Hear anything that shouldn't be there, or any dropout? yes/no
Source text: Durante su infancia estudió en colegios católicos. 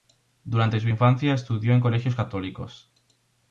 no